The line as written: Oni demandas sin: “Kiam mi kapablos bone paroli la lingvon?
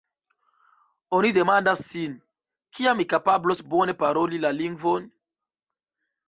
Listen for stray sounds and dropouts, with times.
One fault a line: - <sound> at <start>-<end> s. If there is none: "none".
none